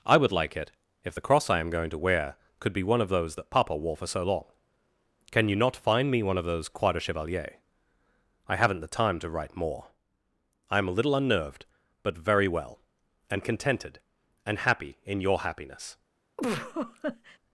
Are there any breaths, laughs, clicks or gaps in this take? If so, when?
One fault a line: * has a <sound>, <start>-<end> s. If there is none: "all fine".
* has a laugh, 16.4-17.4 s